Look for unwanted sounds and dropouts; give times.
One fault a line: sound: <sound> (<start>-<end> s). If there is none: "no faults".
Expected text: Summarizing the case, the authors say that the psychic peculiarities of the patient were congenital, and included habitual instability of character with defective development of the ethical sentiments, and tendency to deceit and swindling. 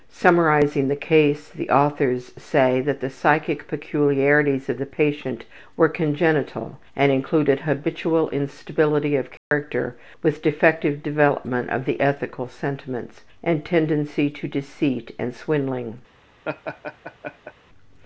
sound: dropout (9.4-9.5 s)
sound: laugh (16.4-17.5 s)